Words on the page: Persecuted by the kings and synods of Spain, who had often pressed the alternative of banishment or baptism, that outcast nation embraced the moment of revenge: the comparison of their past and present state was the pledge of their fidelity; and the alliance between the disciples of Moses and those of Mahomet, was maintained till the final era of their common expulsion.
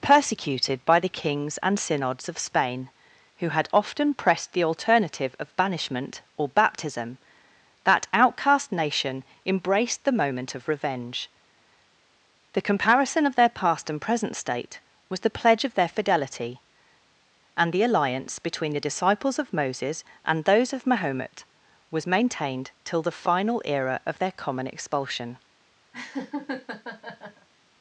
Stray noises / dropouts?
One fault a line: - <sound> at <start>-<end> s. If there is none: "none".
- laugh at 25.9-27.5 s